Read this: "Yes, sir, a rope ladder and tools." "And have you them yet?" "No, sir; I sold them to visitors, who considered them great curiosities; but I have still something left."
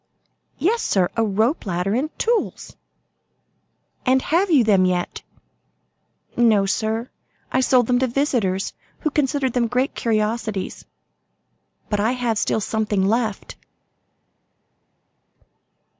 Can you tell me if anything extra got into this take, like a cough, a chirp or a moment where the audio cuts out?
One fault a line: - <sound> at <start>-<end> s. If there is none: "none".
none